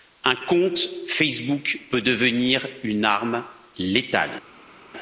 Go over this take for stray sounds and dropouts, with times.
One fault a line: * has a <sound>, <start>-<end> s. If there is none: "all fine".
all fine